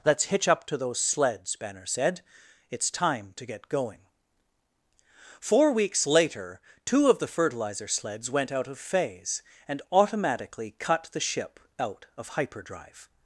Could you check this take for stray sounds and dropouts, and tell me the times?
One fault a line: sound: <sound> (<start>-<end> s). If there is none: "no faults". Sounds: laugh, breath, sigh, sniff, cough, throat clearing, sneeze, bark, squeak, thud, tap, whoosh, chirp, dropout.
no faults